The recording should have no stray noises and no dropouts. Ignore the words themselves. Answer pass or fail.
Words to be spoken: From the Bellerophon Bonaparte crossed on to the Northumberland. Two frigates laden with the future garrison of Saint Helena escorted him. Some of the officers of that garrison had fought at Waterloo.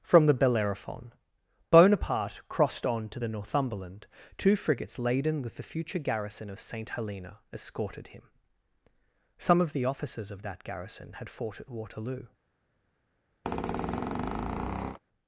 fail